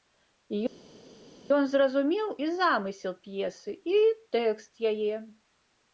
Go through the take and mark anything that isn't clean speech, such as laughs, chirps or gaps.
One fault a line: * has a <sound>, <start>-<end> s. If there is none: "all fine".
all fine